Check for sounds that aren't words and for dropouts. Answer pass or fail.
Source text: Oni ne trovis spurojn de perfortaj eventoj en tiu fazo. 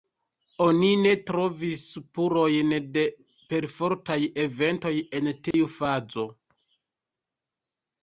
fail